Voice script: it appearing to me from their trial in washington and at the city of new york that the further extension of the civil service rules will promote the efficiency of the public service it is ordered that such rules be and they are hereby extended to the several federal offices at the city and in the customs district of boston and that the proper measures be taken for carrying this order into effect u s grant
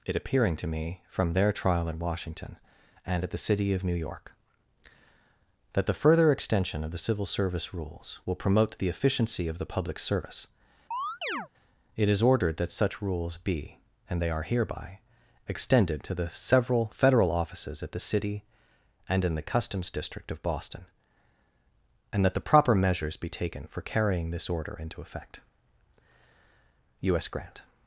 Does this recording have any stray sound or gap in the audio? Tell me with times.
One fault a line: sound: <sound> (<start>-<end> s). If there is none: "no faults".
sound: chirp (10.9-11.5 s)